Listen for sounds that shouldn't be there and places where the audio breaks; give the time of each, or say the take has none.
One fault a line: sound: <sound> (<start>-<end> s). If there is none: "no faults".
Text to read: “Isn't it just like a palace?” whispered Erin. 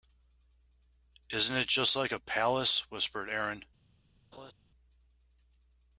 sound: laugh (4.3-4.5 s)